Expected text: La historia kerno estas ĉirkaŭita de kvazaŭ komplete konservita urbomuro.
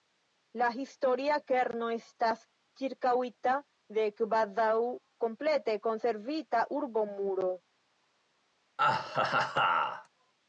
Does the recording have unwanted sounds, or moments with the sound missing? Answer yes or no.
yes